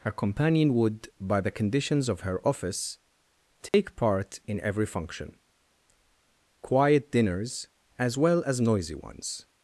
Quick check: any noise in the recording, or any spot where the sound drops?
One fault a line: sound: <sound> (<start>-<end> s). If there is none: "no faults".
sound: dropout (3.7-3.7 s)